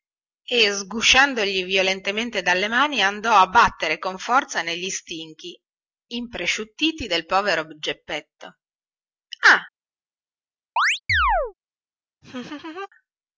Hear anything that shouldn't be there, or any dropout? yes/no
yes